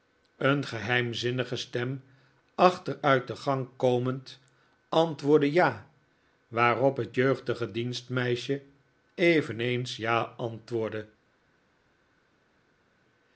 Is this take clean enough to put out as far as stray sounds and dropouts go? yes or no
yes